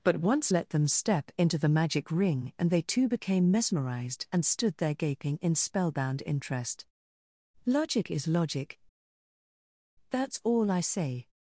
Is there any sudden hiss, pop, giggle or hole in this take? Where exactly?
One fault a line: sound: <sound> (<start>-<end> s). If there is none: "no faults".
no faults